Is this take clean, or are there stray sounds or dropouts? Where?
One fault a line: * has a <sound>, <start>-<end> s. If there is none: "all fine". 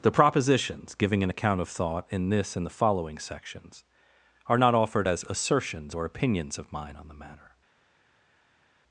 all fine